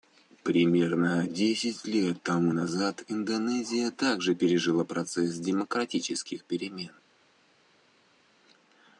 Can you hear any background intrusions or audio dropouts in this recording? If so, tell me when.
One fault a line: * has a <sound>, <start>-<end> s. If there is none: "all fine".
all fine